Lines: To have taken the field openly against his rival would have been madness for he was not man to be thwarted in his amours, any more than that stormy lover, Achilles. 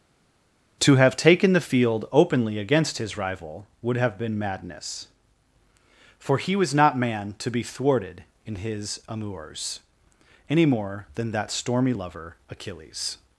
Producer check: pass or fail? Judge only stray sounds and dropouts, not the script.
pass